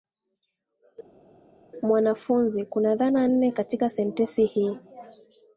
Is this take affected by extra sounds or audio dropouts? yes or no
no